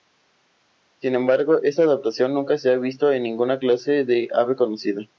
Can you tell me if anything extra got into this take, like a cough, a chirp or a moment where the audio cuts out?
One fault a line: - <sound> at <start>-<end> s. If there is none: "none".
none